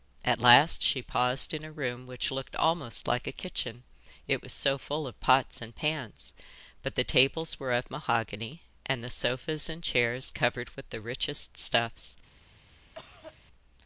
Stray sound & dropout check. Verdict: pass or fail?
fail